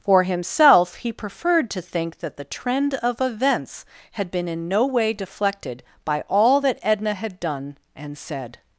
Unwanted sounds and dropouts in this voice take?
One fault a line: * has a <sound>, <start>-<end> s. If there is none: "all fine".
all fine